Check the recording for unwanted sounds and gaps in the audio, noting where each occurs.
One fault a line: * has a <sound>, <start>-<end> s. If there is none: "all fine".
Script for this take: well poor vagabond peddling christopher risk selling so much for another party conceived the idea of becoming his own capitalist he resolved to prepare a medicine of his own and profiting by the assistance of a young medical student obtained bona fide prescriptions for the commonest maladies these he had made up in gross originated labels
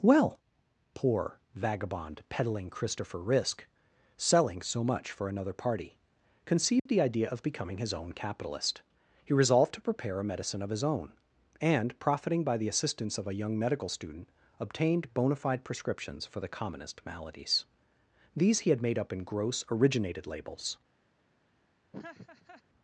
* has a dropout, 6.8-6.9 s
* has a laugh, 21.9-22.6 s